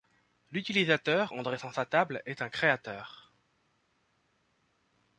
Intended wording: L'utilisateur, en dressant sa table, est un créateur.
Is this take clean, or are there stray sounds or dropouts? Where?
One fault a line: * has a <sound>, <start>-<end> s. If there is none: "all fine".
all fine